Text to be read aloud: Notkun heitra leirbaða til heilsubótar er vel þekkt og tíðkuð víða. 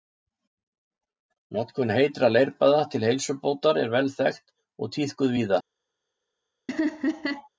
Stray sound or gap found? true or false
true